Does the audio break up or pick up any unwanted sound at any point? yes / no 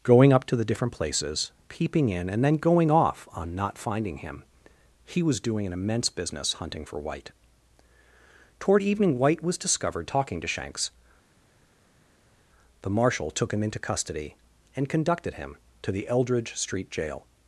no